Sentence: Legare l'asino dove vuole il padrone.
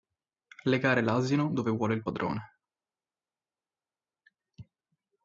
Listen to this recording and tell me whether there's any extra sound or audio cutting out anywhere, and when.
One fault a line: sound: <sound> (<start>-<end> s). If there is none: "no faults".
no faults